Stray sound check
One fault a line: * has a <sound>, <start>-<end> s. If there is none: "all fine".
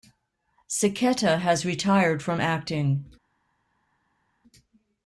all fine